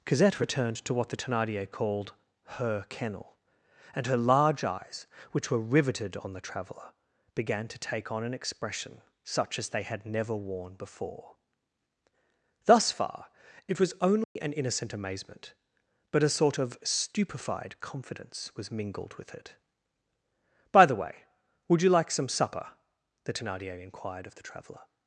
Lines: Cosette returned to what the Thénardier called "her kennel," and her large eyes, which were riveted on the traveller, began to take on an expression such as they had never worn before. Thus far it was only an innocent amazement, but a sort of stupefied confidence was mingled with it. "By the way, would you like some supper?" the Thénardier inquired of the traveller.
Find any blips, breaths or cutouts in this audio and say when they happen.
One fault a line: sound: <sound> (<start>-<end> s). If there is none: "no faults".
sound: dropout (14.2-14.4 s)